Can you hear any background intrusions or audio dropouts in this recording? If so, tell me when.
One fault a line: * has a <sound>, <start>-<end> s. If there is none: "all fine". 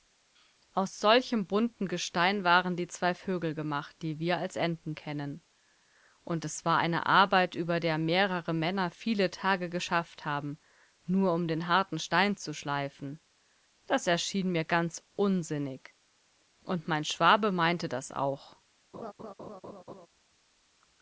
* has a laugh, 18.9-20.1 s